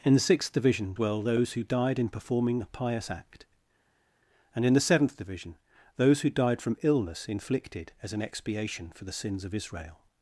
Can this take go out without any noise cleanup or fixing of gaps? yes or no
yes